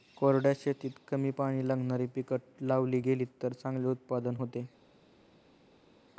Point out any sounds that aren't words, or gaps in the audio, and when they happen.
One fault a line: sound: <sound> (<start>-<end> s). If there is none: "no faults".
no faults